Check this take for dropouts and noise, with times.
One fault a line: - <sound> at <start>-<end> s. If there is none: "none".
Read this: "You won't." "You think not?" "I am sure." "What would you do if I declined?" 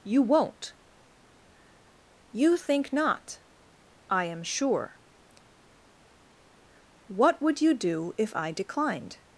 none